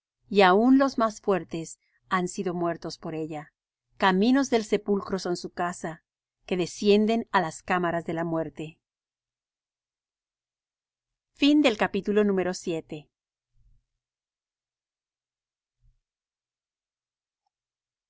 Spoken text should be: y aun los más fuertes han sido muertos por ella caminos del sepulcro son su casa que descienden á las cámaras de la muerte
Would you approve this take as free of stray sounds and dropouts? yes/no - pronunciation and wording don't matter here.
yes